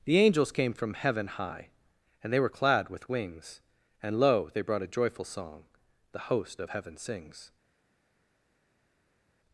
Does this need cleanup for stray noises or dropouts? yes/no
no